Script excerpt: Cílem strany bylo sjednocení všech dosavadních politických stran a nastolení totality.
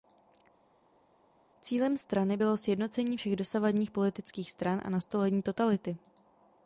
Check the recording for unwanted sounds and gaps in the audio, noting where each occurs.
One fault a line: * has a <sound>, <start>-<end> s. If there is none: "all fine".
all fine